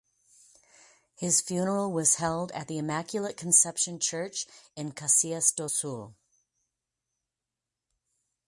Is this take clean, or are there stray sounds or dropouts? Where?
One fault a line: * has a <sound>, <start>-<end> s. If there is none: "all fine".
all fine